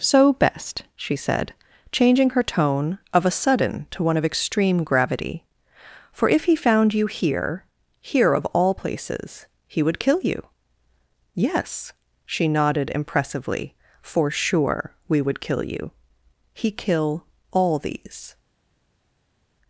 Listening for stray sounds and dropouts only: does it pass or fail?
pass